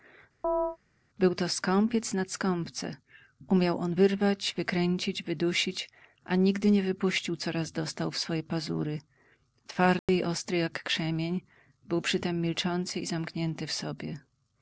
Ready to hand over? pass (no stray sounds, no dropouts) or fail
fail